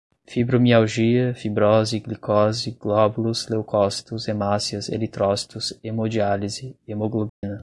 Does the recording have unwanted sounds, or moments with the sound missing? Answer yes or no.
yes